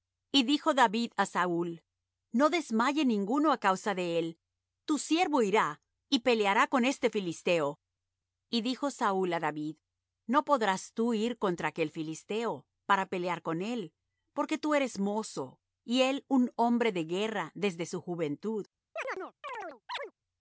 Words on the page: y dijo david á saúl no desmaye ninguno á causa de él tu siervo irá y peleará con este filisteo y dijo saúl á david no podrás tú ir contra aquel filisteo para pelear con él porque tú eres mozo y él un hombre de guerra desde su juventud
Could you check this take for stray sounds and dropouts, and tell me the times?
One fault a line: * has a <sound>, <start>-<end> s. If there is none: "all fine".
* has a chirp, 19.0-20.1 s